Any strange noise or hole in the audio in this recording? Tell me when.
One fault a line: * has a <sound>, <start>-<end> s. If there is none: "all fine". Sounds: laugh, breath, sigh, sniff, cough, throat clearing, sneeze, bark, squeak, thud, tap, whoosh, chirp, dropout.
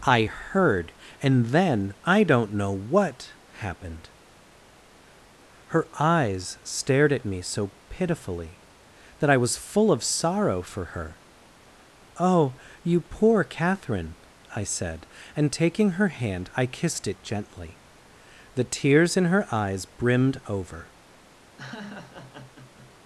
* has a laugh, 21.6-22.9 s